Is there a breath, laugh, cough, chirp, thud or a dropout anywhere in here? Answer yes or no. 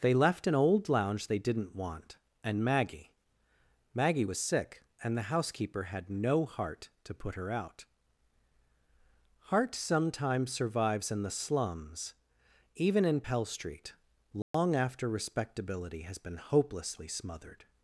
yes